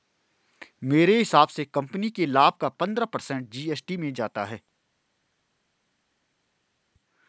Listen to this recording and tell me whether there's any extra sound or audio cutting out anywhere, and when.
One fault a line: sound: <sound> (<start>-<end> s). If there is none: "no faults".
no faults